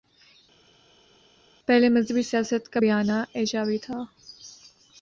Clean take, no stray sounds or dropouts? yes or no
yes